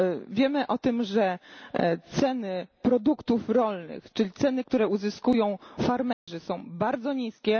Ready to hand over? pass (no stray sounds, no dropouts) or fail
fail